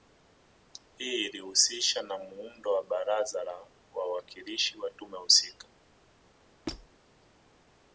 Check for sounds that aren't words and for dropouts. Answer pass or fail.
fail